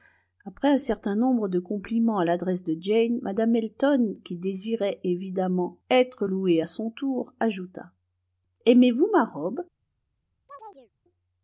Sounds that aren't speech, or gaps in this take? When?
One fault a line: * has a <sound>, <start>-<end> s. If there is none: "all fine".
* has a chirp, 10.5-10.9 s